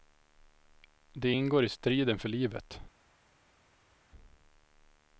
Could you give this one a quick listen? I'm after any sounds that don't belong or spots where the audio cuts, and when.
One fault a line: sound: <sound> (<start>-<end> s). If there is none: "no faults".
no faults